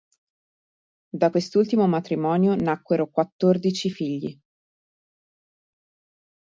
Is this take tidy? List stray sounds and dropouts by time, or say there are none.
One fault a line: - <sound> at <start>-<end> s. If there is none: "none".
none